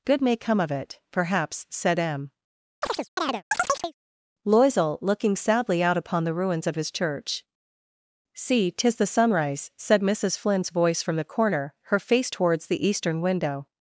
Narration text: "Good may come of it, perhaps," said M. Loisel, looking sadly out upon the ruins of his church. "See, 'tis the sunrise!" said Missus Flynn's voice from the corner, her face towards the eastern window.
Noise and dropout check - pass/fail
fail